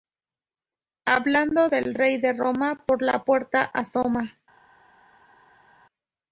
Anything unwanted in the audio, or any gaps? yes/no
no